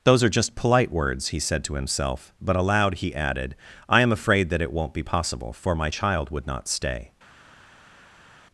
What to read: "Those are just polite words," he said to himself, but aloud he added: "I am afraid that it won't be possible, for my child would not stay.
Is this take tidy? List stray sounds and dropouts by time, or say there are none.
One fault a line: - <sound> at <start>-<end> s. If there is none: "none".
none